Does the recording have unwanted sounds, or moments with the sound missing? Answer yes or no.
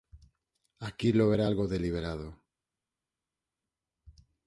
no